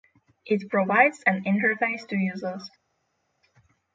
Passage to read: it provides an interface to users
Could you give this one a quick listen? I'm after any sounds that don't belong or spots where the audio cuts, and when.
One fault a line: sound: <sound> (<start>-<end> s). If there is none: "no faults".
no faults